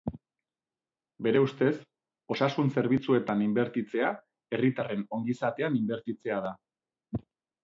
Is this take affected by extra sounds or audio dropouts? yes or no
no